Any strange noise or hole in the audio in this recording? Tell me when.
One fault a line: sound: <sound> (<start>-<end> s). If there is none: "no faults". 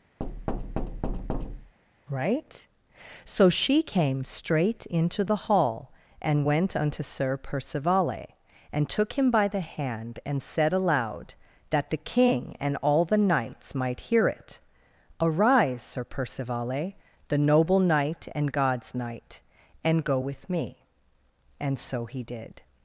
sound: thud (0.2-1.7 s)